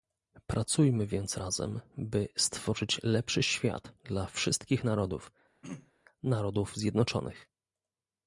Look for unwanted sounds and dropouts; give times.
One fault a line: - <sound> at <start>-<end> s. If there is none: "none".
- throat clearing at 5.6-5.9 s